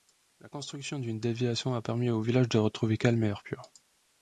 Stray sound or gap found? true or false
false